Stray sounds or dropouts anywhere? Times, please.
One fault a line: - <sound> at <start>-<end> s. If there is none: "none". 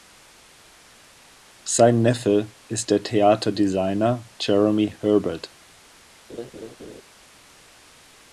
- laugh at 6.3-7.0 s